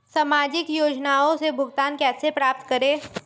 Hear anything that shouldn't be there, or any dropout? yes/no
no